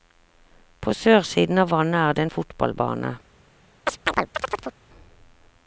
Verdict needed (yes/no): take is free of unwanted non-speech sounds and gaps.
no